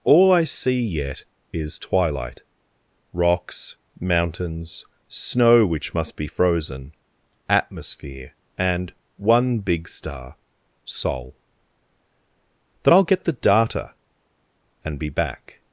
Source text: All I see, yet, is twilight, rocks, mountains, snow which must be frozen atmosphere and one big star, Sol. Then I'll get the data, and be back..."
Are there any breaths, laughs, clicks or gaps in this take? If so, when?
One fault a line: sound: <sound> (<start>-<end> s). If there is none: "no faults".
no faults